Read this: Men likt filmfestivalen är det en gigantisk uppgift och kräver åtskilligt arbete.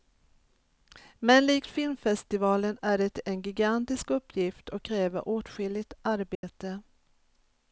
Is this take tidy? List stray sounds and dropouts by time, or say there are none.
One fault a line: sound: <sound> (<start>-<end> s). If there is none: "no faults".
sound: dropout (6.3-6.4 s)